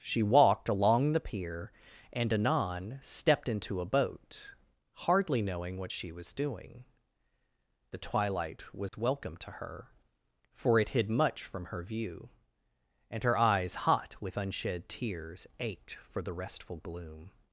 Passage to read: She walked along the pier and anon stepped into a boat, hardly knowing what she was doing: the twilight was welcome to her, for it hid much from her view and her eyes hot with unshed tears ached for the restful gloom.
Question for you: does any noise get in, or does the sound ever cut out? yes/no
yes